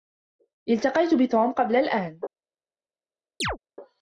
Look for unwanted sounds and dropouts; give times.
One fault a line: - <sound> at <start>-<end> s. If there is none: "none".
- chirp at 3.4-3.6 s